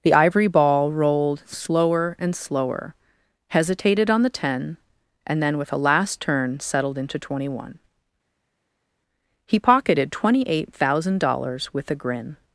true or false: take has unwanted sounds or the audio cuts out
false